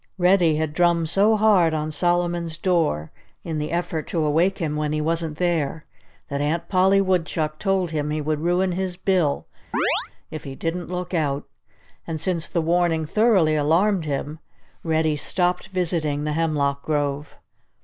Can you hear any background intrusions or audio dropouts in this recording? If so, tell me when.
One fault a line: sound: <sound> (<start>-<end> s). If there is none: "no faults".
sound: chirp (9.7-10.1 s)